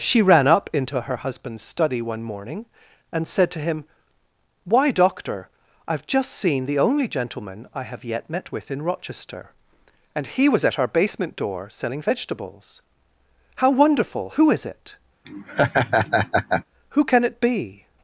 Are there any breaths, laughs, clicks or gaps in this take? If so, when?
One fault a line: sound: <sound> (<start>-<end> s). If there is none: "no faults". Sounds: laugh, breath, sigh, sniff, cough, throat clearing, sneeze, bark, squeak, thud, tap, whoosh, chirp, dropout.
sound: laugh (15.2-16.6 s)